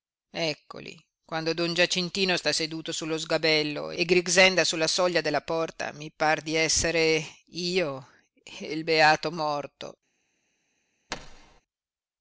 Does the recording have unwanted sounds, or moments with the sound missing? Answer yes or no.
yes